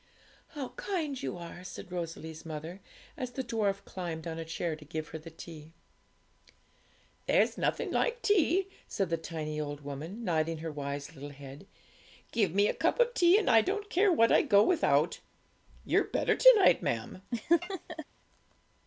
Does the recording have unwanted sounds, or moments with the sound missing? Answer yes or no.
yes